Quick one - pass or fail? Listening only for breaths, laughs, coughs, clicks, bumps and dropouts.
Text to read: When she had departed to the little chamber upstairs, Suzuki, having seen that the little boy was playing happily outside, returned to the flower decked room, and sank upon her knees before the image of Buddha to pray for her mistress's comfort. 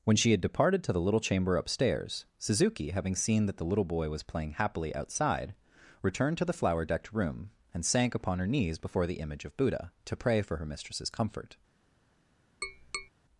fail